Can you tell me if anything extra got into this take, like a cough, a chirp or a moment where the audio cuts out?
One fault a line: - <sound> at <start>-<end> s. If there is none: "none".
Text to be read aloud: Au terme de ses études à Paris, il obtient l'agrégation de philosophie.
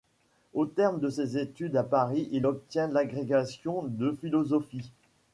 none